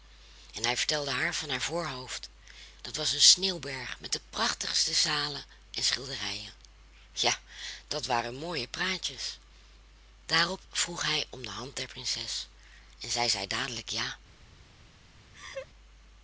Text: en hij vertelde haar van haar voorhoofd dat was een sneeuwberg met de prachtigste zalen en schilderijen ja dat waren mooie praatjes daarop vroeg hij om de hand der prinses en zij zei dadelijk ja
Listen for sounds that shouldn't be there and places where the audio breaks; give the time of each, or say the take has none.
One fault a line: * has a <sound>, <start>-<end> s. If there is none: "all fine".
* has a laugh, 15.3-15.7 s